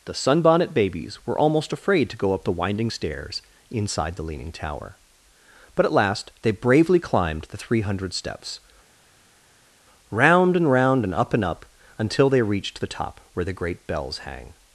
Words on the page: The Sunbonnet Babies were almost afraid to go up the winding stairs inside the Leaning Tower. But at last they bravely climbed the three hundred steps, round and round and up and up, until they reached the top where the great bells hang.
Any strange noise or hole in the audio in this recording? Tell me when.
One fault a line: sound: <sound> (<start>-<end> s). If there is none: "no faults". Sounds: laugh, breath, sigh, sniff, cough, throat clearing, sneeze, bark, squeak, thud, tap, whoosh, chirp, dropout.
no faults